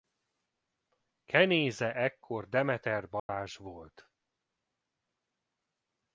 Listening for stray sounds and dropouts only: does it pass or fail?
fail